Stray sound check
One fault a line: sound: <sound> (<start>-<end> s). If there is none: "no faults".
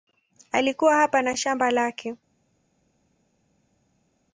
no faults